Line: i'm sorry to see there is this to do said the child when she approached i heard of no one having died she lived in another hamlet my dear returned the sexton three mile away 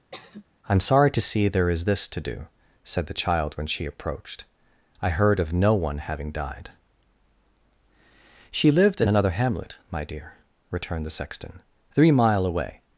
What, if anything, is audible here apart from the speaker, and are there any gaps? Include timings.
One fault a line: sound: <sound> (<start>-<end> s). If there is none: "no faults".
sound: sigh (0.1-0.4 s)